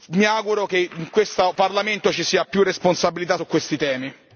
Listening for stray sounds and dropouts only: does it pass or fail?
pass